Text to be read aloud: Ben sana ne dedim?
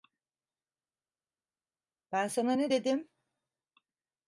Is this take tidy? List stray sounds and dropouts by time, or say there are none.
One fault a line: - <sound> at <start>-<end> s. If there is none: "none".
none